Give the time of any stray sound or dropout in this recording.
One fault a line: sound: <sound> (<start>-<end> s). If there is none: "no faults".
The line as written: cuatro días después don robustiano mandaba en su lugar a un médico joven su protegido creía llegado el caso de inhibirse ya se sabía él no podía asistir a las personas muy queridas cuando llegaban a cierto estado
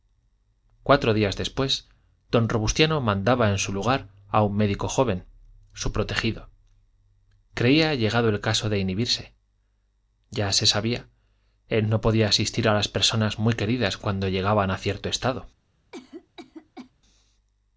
sound: cough (15.9-16.9 s)